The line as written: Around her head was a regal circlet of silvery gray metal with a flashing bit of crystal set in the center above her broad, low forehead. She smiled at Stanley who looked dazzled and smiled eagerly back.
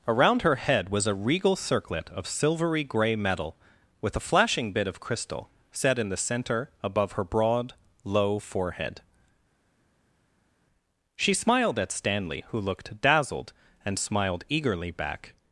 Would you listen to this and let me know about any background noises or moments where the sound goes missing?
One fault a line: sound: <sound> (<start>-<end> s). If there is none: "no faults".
no faults